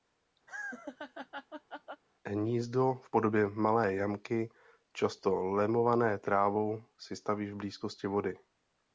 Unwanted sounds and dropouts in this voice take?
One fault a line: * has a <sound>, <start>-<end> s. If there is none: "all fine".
* has a laugh, 0.5-2.0 s